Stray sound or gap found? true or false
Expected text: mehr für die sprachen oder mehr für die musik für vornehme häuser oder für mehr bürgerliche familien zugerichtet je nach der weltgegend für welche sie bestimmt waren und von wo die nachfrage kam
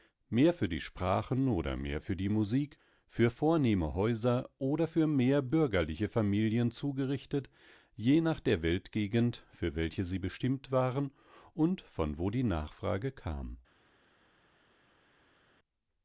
false